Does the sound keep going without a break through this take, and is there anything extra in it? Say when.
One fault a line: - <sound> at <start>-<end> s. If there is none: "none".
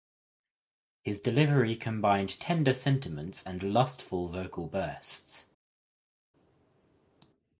none